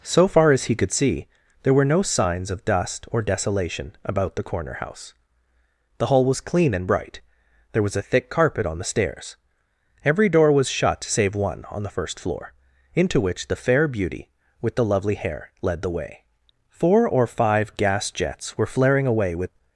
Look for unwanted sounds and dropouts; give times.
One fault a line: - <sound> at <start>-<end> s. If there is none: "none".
none